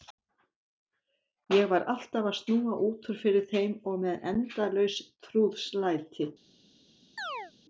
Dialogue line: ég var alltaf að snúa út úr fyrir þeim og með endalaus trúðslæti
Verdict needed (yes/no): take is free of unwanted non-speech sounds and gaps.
no